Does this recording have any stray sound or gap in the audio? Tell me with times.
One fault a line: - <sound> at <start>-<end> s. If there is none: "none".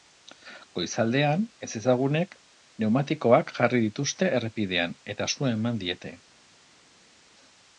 none